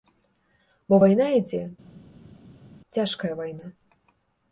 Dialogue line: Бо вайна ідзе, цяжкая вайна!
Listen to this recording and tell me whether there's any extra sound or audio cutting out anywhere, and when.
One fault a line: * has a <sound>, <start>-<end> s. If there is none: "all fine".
all fine